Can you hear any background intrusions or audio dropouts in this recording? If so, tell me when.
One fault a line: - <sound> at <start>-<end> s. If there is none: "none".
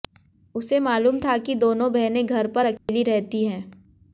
- dropout at 2.8-2.9 s